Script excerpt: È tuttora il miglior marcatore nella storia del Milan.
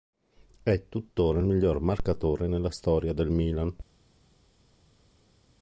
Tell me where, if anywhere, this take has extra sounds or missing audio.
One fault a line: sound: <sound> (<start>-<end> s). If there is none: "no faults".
no faults